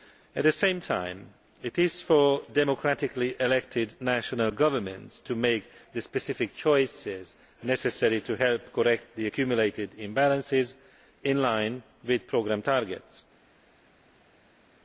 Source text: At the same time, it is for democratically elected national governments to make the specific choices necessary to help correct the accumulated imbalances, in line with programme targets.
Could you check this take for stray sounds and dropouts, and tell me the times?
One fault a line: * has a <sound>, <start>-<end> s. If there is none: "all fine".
all fine